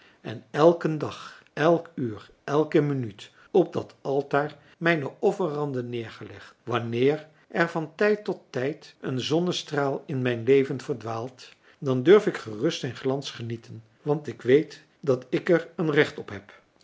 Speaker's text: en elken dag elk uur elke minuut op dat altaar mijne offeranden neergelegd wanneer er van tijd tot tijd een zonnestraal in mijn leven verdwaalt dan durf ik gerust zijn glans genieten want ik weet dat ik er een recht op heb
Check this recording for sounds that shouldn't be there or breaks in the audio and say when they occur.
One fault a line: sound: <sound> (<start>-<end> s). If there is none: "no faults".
no faults